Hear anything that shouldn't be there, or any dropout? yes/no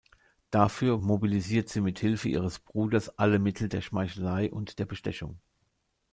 no